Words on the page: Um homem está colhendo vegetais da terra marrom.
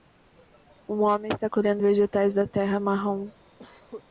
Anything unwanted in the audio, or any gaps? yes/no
yes